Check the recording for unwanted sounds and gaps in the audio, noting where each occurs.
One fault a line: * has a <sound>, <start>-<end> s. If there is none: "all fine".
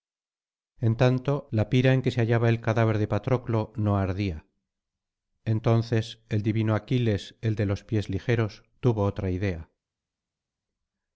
all fine